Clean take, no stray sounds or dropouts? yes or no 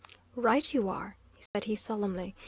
no